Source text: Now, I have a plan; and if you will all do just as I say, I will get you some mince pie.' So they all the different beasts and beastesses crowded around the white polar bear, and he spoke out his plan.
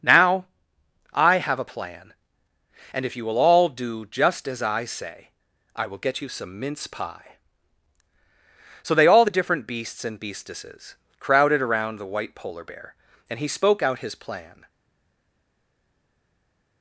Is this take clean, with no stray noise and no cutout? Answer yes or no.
yes